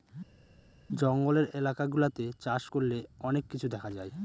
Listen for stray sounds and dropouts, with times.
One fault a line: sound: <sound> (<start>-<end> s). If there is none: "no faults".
no faults